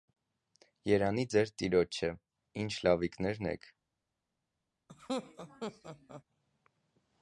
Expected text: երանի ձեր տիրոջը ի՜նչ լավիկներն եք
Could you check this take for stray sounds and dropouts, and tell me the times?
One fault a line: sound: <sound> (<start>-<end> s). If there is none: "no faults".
sound: laugh (4.9-6.2 s)